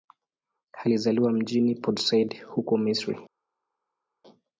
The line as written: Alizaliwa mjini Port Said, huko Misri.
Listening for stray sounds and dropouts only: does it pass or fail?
pass